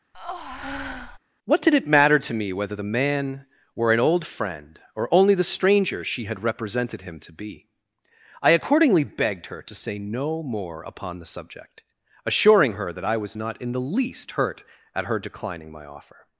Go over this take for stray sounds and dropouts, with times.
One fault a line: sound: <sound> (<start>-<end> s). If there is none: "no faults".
sound: breath (0.1-1.2 s)